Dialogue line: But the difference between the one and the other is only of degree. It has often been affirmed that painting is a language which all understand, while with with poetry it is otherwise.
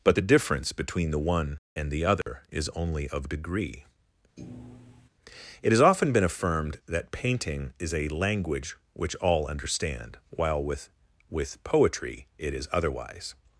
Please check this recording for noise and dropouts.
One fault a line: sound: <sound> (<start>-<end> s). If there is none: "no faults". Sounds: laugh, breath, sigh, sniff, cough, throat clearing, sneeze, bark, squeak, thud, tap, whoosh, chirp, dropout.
sound: dropout (2.2-2.3 s)
sound: thud (4.4-5.1 s)